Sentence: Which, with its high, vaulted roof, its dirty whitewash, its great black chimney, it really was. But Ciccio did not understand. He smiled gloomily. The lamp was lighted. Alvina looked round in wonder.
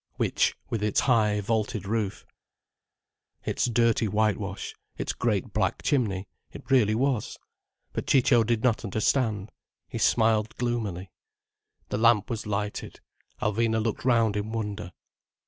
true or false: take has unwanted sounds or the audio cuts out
false